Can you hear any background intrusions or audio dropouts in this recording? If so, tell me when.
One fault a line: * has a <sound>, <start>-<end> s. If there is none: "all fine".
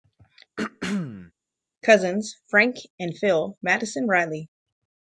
* has a throat clearing, 0.6-1.3 s